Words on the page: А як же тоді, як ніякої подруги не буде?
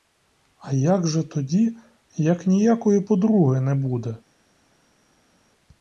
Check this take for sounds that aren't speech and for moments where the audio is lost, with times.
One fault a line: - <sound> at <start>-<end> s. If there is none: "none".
none